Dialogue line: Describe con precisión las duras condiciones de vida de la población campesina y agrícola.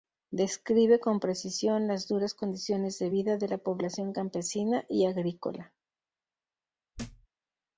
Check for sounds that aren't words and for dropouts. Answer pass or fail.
fail